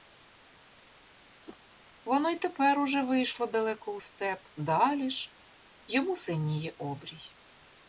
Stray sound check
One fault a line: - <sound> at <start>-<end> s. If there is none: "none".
- whoosh at 1.5-1.6 s